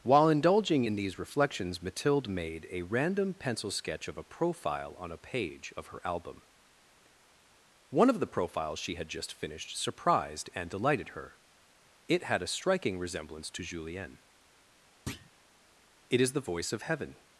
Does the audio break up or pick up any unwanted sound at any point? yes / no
yes